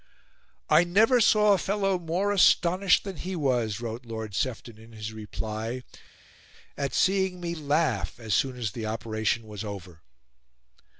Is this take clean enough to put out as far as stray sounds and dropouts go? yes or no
yes